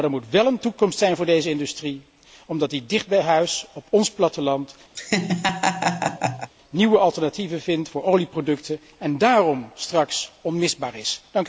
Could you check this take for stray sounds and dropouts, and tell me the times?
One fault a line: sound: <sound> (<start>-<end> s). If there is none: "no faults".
sound: laugh (4.9-6.5 s)